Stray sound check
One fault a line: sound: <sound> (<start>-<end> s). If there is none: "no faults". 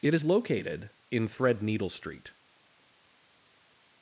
no faults